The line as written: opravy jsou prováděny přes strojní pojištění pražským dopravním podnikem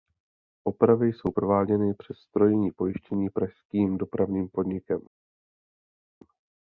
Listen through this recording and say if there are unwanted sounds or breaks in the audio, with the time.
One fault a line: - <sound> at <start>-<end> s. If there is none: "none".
none